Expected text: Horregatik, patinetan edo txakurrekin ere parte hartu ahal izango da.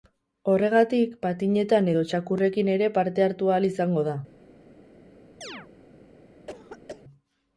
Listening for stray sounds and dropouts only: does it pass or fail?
fail